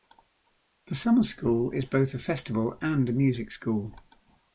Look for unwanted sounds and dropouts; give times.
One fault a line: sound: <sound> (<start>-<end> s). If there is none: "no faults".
no faults